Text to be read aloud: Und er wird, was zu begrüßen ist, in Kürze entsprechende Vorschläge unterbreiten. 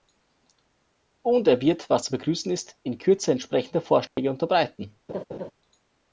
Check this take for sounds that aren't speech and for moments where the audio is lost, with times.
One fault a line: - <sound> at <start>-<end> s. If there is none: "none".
- dropout at 4.1-4.2 s
- laugh at 5.1-5.5 s